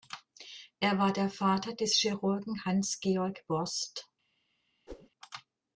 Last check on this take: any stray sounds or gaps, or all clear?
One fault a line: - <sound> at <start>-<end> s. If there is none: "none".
- whoosh at 4.9-5.1 s